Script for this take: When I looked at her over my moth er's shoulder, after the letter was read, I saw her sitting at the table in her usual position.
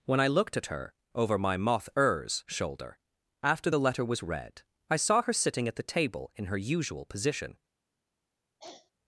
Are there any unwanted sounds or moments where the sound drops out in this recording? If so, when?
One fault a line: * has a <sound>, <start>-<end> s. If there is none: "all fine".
* has a throat clearing, 8.6-8.9 s